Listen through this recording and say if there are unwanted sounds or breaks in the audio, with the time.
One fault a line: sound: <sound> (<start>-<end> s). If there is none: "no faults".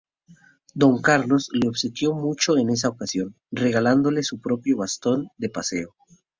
no faults